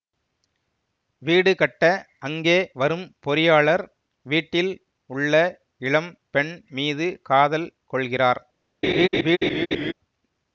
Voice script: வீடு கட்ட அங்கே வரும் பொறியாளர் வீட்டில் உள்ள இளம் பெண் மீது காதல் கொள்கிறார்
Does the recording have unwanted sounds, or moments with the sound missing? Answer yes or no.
yes